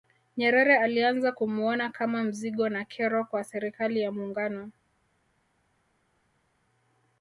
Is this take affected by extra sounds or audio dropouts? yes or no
no